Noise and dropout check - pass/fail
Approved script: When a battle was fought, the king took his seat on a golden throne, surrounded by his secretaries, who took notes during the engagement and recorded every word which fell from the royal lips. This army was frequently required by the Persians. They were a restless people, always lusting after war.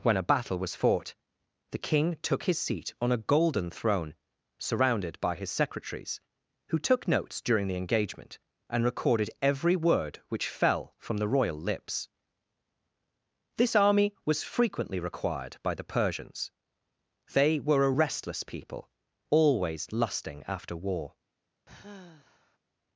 fail